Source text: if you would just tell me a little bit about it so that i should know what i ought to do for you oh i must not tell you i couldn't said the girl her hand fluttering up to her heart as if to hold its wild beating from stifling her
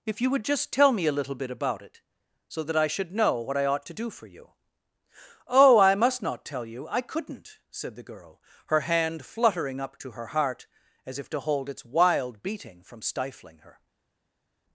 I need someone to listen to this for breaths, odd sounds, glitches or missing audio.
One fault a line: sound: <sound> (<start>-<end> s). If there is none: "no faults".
no faults